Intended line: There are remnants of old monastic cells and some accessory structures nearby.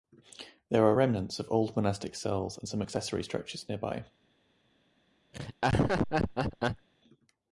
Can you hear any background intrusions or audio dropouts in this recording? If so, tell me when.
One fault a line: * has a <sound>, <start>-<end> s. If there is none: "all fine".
* has a laugh, 5.3-6.9 s